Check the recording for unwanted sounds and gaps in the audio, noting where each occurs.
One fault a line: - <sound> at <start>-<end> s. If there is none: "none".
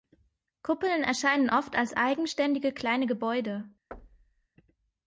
- thud at 3.9-4.5 s